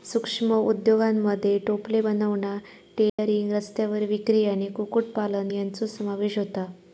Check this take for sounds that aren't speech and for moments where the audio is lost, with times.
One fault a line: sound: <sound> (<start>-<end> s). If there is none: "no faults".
sound: dropout (3.1-3.2 s)